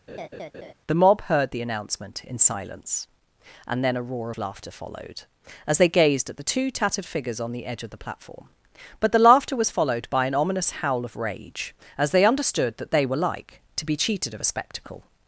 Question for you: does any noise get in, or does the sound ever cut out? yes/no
yes